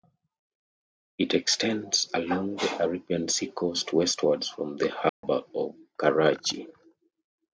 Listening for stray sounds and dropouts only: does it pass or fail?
fail